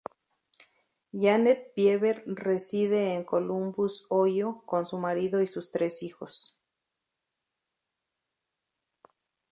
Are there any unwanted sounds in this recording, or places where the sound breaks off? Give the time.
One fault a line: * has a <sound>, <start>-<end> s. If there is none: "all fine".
all fine